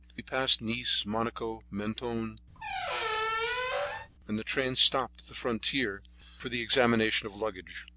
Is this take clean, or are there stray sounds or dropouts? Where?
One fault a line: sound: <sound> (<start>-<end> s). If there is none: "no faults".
sound: squeak (2.5-4.1 s)